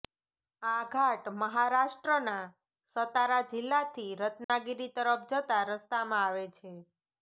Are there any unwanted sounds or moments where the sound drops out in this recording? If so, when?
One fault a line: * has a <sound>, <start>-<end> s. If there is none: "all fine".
* has a dropout, 4.4-4.5 s